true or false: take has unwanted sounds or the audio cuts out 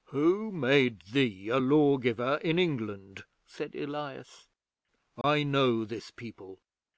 true